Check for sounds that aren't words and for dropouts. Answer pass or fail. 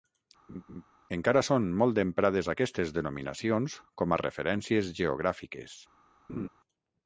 fail